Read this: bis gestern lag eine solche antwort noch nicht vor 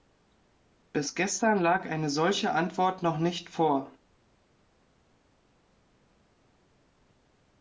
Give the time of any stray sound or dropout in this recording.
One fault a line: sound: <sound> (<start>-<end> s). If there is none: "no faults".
no faults